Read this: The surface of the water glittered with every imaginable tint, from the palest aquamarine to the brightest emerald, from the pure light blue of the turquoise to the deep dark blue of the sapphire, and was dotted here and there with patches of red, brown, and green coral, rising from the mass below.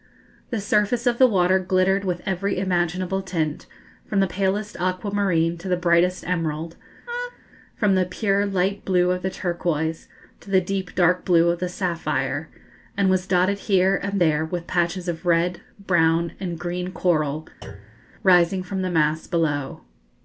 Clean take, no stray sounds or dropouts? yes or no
no